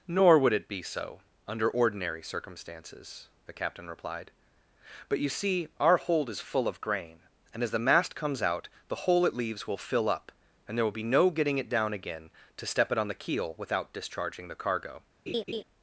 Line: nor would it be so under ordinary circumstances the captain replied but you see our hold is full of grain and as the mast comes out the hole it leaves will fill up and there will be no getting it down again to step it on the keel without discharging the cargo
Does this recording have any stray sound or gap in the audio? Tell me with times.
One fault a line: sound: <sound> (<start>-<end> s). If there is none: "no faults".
sound: laugh (15.3-15.6 s)